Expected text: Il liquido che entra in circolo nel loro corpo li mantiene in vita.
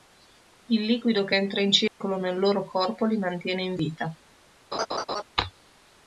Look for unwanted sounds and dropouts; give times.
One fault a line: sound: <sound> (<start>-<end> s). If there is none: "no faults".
sound: dropout (1.9-2.0 s)
sound: laugh (4.7-5.2 s)